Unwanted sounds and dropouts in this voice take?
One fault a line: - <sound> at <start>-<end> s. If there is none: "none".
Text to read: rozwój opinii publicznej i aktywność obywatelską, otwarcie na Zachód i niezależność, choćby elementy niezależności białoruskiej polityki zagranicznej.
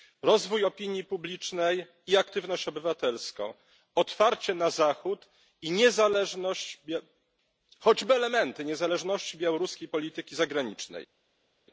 none